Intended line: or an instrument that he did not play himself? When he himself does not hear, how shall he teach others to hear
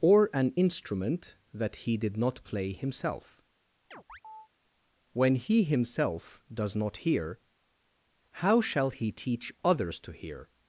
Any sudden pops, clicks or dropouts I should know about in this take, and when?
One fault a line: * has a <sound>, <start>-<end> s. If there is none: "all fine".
* has a chirp, 3.9-4.5 s